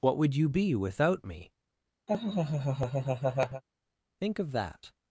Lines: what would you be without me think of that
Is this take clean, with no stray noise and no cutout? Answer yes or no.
no